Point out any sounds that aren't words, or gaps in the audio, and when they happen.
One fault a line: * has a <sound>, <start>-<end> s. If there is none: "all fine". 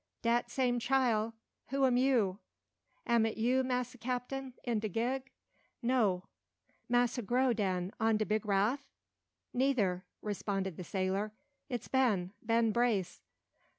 all fine